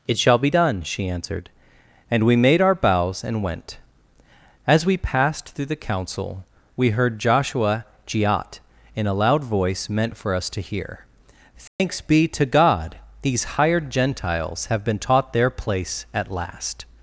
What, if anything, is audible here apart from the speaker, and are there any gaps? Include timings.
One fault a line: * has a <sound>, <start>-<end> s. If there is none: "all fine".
* has a dropout, 11.7-11.8 s